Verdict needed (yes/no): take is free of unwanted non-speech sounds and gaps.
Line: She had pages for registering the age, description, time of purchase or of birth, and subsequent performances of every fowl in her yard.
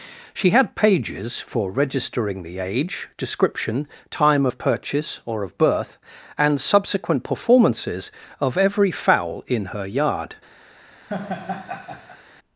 no